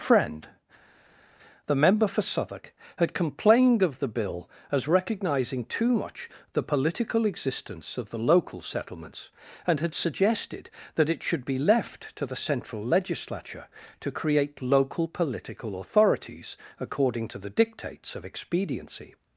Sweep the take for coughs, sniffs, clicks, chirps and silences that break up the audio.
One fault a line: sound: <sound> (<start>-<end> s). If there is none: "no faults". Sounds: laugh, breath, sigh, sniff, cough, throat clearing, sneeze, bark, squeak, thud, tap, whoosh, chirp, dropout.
no faults